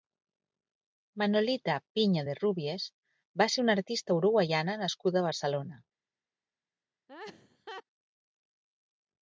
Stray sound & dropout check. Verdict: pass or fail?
fail